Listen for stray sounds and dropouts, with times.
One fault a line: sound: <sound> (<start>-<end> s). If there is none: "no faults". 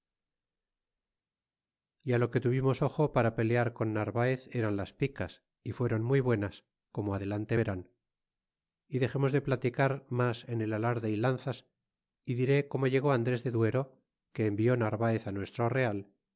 no faults